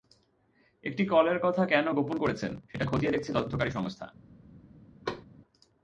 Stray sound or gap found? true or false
true